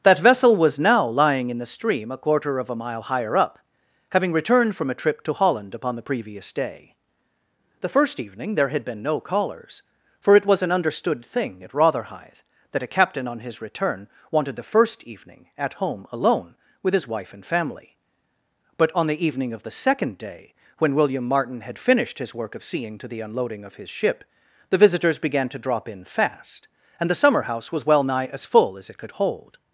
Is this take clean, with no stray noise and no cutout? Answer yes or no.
yes